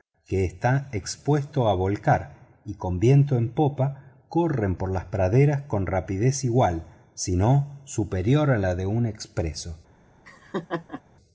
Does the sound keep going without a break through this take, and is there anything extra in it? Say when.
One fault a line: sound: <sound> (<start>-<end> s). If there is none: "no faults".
sound: laugh (10.2-11.0 s)